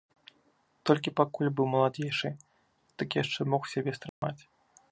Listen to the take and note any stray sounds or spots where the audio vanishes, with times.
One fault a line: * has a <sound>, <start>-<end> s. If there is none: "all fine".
* has a dropout, 4.1-4.2 s